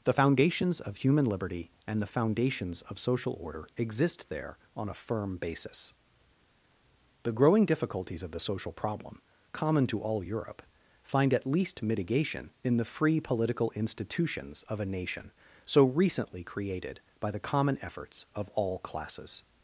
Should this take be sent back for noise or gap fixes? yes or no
no